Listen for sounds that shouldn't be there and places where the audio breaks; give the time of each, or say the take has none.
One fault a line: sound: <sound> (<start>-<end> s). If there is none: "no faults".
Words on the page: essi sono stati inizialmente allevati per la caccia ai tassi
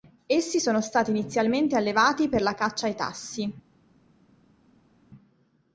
no faults